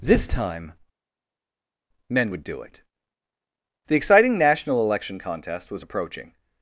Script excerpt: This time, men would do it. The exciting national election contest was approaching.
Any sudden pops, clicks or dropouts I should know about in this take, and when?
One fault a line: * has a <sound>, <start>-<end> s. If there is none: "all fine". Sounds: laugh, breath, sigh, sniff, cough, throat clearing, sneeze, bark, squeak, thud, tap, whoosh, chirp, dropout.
all fine